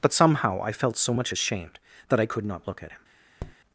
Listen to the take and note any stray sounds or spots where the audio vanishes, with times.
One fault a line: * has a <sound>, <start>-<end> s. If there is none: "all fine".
* has a tap, 3.4-3.6 s